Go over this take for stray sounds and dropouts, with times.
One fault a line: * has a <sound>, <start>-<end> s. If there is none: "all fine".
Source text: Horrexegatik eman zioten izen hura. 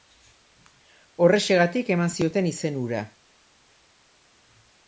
all fine